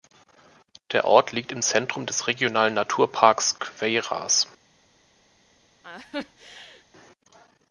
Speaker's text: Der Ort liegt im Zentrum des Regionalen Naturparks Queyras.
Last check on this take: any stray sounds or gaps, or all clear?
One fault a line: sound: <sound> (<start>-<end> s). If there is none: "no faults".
sound: laugh (5.8-6.8 s)